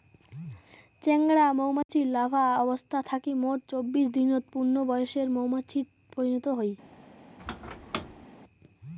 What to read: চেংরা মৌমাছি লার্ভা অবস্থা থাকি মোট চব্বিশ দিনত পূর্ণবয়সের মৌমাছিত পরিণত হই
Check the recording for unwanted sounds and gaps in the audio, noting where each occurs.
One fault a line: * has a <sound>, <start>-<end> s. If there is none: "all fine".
* has a dropout, 1.8-1.9 s
* has a squeak, 7.4-8.3 s